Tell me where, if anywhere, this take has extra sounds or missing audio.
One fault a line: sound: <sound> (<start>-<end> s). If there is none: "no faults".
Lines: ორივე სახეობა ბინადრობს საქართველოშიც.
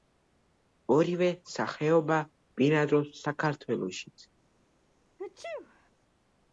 sound: sneeze (5.2-5.9 s)